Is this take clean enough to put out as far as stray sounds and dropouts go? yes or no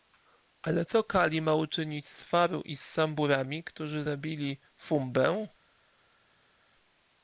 yes